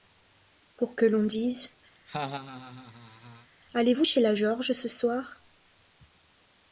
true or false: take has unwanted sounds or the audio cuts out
true